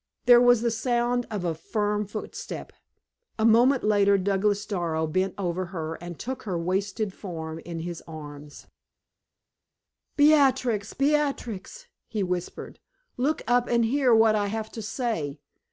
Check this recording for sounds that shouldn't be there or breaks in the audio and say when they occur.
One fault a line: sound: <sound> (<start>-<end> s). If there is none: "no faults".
no faults